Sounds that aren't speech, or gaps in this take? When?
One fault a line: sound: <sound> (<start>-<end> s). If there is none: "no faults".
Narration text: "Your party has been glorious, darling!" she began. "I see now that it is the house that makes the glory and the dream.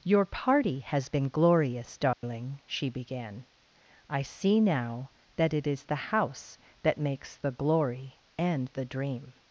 sound: dropout (2.1-2.2 s)